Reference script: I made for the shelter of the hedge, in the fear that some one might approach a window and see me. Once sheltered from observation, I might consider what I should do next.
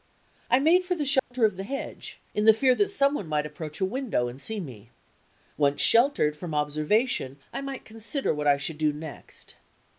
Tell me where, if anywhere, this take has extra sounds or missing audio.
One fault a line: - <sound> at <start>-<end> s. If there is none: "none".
- dropout at 1.2-1.3 s